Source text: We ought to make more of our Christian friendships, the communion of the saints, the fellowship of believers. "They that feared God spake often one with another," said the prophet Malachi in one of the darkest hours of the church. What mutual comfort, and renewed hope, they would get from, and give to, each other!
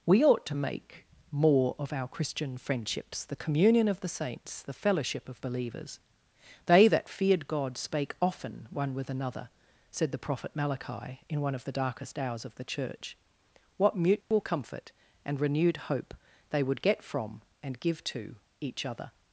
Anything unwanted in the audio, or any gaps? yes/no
yes